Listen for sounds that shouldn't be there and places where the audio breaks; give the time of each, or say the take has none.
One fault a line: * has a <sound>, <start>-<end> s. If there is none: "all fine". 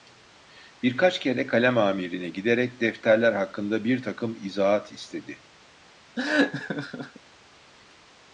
* has a laugh, 6.2-7.2 s